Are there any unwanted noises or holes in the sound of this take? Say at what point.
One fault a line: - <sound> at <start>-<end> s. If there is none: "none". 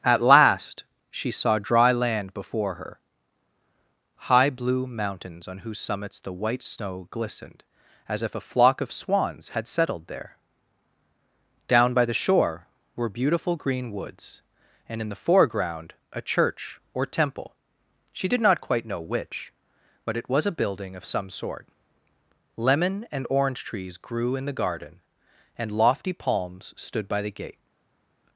none